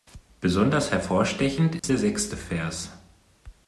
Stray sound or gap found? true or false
true